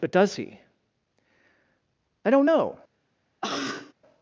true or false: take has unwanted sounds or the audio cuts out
true